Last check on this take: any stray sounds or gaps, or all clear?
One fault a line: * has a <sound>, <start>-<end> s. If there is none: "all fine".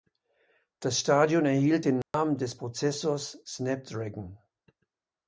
* has a dropout, 2.0-2.1 s